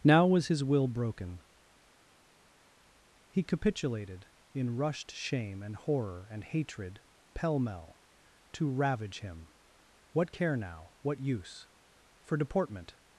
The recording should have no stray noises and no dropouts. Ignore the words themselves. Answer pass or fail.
pass